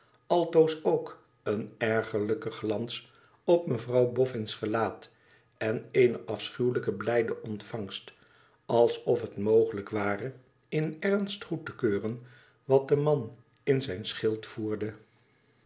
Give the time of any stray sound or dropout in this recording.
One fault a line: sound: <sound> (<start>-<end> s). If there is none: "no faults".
no faults